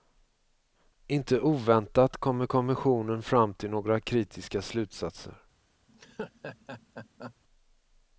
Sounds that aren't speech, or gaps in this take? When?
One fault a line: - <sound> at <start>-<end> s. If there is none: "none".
- laugh at 5.9-7.3 s